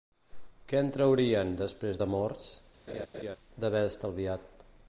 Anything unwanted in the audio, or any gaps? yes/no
yes